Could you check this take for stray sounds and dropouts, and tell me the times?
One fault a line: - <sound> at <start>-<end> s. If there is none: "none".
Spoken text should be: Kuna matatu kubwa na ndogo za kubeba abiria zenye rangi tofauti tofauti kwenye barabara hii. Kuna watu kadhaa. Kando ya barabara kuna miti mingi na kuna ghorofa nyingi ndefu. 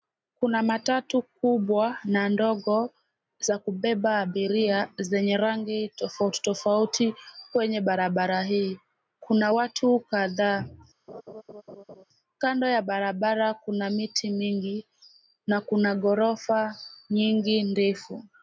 - laugh at 11.1-12.0 s